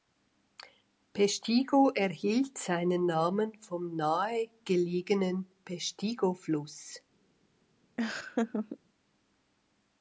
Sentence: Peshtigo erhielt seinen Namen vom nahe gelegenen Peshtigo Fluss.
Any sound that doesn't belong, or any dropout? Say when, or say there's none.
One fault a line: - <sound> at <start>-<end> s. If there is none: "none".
- laugh at 8.0-8.8 s